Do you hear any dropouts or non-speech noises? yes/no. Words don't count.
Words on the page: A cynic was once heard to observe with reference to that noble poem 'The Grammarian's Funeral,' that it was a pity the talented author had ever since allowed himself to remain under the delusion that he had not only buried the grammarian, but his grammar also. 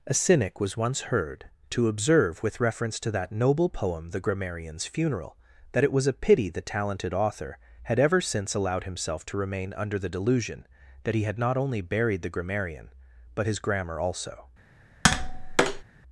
yes